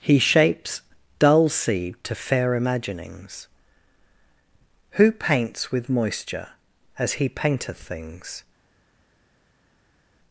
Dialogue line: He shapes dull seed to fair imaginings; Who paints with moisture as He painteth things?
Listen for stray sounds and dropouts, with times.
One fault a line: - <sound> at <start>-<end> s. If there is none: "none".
none